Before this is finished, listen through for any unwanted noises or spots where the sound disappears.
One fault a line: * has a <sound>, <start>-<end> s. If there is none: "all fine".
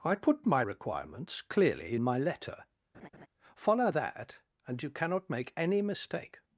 * has a laugh, 2.9-3.3 s